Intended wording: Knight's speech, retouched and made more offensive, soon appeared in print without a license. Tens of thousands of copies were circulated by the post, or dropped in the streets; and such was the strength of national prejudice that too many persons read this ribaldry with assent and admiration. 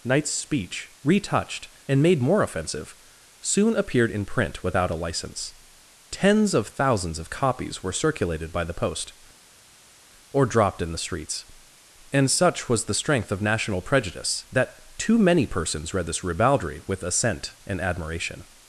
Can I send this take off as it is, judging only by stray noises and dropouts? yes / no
yes